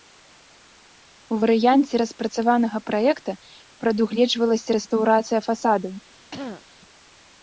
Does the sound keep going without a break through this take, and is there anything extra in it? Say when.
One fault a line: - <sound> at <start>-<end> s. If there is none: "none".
- throat clearing at 6.3-6.6 s